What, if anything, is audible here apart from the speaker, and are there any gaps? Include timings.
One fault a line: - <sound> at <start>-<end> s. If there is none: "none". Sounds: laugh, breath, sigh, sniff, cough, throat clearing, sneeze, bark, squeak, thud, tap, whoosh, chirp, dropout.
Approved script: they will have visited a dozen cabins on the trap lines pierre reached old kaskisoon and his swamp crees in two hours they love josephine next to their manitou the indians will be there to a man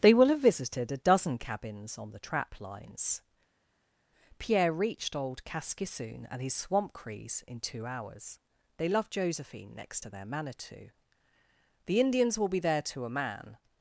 none